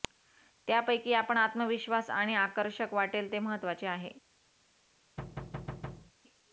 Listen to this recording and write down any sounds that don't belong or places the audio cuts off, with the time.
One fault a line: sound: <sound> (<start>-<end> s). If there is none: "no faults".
sound: thud (5.2-6.1 s)